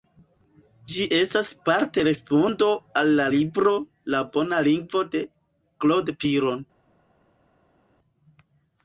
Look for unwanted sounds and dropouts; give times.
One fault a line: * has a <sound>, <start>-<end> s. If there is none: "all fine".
all fine